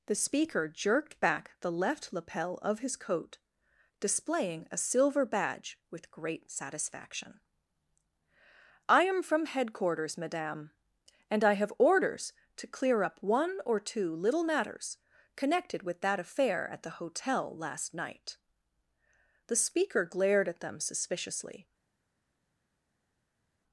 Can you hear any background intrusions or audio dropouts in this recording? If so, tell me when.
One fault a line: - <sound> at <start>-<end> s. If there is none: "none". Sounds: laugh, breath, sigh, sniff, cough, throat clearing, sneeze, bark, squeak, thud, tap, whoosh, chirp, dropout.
none